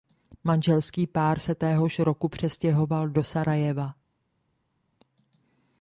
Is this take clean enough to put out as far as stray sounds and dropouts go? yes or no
yes